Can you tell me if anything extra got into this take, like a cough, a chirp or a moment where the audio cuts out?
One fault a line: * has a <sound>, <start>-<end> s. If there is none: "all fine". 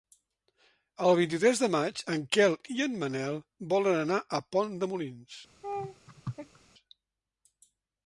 * has a laugh, 5.6-6.6 s